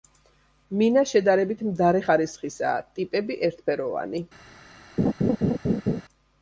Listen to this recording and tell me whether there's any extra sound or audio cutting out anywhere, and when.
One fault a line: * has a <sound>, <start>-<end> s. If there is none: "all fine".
* has a laugh, 5.0-6.0 s